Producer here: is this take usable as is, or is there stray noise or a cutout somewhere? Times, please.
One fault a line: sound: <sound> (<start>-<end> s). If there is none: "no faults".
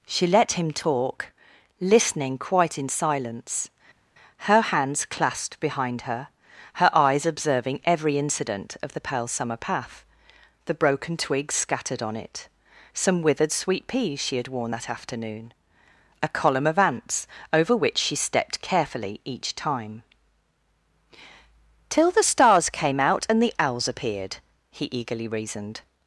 no faults